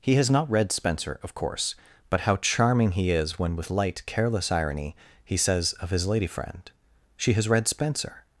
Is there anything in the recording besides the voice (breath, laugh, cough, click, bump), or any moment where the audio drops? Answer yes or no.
no